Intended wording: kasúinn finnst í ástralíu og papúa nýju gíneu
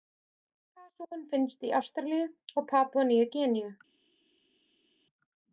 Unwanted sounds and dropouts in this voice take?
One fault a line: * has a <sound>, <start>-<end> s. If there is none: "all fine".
all fine